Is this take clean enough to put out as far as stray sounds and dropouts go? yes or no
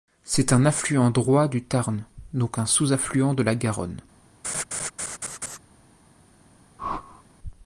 no